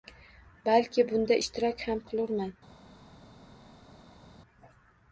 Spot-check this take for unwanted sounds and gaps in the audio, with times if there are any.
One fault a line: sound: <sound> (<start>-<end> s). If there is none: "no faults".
no faults